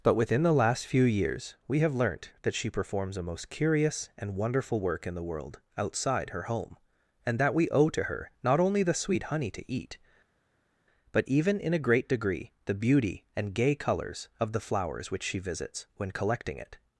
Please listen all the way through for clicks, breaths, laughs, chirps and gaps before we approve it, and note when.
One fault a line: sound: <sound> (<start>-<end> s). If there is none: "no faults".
no faults